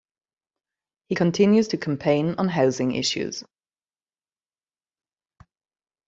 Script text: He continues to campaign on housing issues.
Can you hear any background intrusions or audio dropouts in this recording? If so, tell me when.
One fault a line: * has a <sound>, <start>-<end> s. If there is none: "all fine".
all fine